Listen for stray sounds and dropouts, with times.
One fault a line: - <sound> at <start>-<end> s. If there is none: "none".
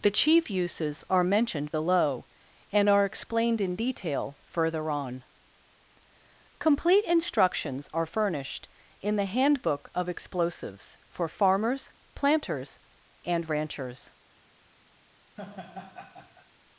- laugh at 15.4-16.5 s